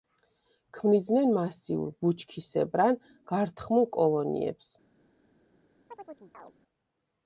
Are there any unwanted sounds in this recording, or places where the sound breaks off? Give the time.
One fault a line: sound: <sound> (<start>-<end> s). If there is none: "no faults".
sound: chirp (5.9-6.5 s)